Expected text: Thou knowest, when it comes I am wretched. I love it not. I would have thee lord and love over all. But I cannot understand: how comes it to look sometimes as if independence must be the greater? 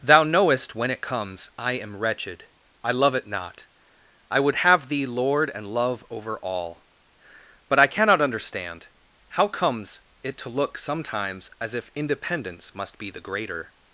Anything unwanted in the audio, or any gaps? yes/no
no